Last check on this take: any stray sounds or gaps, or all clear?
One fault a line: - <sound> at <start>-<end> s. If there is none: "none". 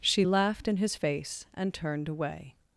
none